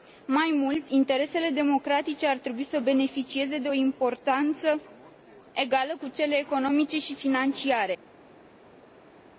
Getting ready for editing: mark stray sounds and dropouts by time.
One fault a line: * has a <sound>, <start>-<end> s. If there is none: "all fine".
all fine